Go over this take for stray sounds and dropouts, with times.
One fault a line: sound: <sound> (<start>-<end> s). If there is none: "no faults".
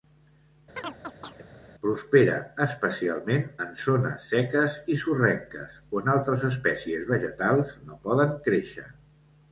sound: chirp (0.8-1.4 s)